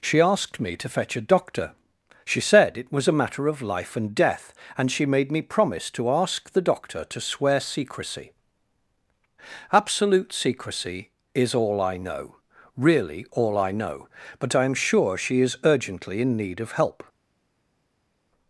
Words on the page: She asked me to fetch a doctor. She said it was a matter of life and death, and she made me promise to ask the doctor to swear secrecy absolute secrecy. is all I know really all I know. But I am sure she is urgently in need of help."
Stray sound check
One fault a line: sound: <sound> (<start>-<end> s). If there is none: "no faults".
no faults